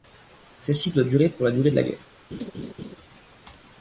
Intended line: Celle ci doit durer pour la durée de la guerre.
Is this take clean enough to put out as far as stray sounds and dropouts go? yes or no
no